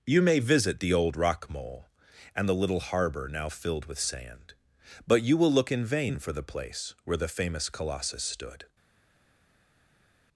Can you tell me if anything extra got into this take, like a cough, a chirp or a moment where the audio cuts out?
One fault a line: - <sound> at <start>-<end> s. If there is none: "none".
none